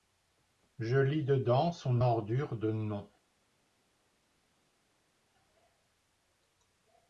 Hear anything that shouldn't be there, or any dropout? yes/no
no